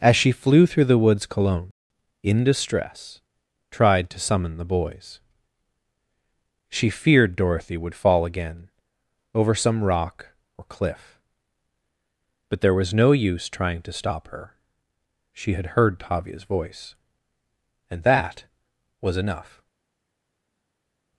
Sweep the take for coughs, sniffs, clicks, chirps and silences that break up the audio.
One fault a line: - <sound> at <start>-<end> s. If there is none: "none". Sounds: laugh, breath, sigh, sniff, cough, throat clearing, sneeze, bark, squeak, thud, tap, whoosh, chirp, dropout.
none